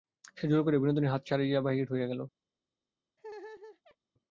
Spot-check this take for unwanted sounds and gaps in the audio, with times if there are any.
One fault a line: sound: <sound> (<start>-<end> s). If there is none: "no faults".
sound: laugh (3.2-4.0 s)